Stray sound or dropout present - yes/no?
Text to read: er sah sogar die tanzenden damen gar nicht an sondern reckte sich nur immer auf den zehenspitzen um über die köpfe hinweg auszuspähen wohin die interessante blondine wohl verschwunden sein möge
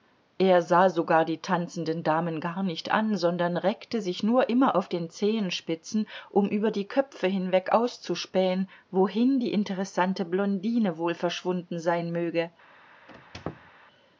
yes